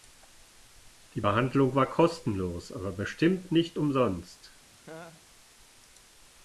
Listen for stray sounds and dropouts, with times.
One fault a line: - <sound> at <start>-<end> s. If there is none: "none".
- laugh at 4.8-5.2 s